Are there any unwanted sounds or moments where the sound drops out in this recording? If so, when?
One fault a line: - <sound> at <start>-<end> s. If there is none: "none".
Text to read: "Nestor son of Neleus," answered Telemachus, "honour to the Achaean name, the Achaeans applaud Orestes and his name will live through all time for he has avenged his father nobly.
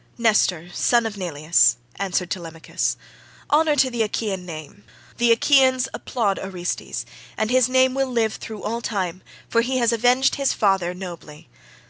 none